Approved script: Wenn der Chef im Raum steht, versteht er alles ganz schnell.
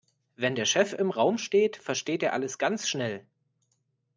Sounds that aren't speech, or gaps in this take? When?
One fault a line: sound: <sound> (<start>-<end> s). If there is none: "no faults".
no faults